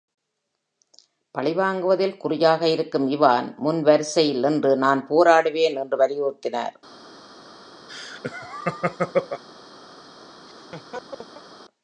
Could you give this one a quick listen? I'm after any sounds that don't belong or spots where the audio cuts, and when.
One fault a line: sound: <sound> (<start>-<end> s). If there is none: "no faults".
sound: laugh (7.9-9.4 s)
sound: laugh (10.5-11.5 s)